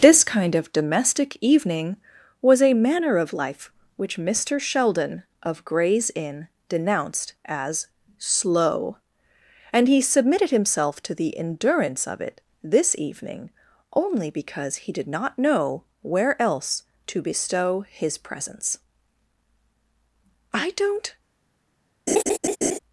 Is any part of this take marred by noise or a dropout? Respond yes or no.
yes